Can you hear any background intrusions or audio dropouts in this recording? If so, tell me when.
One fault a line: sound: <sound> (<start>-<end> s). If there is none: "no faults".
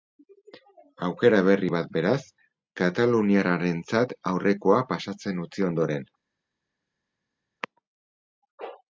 no faults